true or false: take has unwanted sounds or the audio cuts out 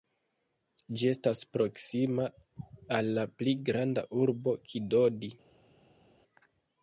false